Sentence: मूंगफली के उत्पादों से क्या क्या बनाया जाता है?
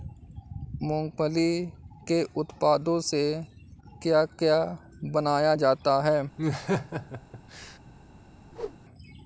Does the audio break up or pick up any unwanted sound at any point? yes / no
yes